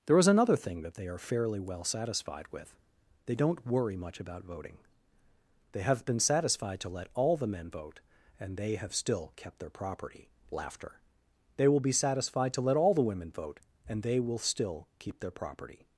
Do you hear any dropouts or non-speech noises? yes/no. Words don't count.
no